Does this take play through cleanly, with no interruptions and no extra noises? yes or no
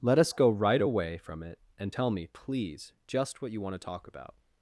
yes